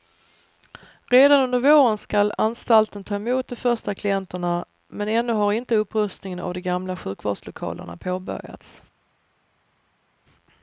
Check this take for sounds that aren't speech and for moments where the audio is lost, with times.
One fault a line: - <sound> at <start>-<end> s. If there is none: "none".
none